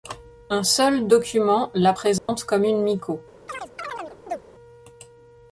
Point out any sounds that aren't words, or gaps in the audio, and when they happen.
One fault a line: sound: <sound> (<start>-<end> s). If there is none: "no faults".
sound: dropout (2.2-2.3 s)
sound: chirp (3.5-4.4 s)